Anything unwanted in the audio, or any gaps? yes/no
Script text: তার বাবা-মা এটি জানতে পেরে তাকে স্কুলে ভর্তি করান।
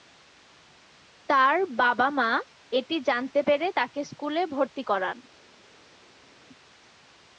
no